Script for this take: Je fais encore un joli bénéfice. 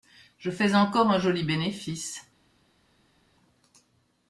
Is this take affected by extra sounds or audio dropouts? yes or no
no